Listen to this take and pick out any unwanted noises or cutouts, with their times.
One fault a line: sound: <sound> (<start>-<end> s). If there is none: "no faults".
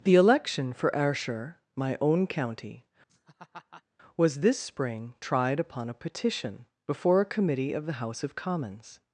sound: laugh (3.1-3.8 s)